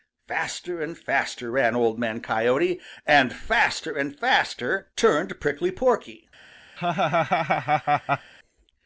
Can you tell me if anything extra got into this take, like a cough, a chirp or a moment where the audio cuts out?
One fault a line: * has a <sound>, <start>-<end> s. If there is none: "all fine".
* has a laugh, 6.8-8.3 s